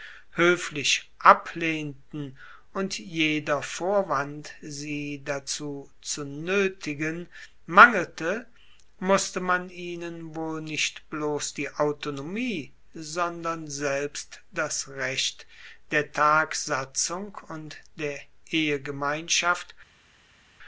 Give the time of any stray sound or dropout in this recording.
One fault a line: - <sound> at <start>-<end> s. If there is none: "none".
none